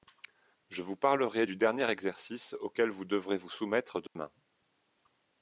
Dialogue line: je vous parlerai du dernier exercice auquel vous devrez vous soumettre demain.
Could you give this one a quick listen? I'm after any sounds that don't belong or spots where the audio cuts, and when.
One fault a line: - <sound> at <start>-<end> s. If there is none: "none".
- dropout at 4.1-4.2 s